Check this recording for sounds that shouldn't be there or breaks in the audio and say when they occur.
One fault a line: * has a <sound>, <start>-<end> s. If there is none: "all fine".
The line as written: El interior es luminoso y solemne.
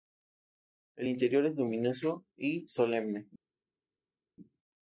all fine